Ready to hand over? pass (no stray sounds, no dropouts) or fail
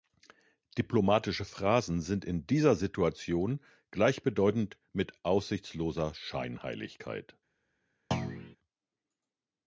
fail